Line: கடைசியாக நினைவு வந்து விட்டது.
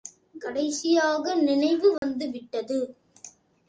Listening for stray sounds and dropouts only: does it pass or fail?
fail